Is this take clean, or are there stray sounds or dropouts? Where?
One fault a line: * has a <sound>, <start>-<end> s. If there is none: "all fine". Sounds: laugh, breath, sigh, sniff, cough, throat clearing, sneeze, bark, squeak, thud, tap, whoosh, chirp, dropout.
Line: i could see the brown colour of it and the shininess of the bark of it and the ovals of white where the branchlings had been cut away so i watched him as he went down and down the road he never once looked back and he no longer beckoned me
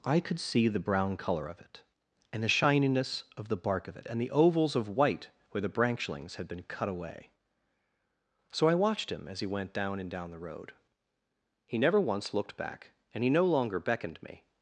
all fine